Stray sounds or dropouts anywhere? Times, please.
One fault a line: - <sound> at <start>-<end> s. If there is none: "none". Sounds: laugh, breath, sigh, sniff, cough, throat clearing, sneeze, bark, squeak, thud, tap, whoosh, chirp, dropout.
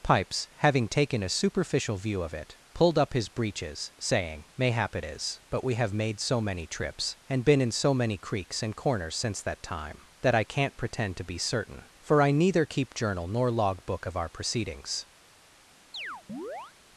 - chirp at 15.9-16.7 s